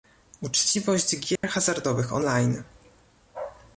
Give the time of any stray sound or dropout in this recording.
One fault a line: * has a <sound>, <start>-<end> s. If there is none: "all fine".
* has a dropout, 1.4-1.4 s